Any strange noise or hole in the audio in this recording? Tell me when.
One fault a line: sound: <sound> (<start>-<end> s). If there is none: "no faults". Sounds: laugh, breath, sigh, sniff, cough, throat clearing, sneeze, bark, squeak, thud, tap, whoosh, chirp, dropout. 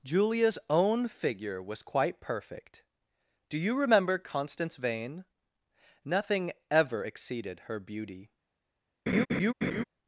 sound: laugh (9.1-9.8 s)